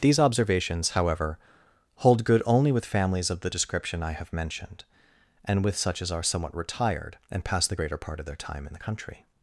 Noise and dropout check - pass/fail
pass